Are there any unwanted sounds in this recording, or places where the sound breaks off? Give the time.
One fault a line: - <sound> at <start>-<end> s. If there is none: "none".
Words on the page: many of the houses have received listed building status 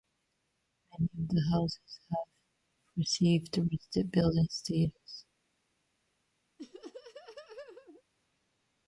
- laugh at 6.6-8.0 s